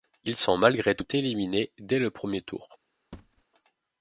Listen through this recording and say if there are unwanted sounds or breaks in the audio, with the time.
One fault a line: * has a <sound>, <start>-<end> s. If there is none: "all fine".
* has a thud, 3.1-3.4 s